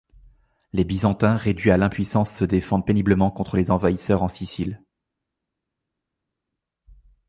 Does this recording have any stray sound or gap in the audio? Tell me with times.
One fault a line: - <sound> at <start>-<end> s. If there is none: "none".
none